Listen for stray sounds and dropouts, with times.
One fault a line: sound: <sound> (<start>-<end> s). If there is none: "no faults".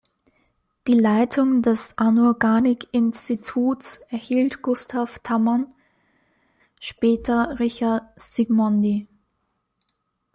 no faults